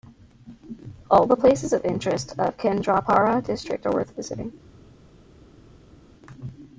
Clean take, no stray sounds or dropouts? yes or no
yes